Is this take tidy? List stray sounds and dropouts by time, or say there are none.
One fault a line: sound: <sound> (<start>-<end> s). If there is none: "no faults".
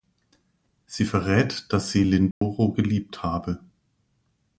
sound: dropout (2.3-2.4 s)